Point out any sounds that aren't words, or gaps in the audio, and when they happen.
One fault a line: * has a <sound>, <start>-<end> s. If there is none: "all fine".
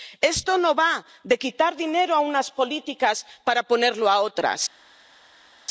all fine